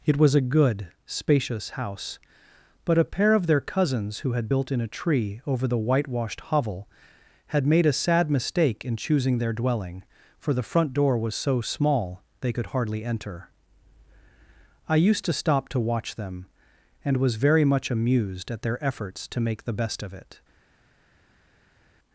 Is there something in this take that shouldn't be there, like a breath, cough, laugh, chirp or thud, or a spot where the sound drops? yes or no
no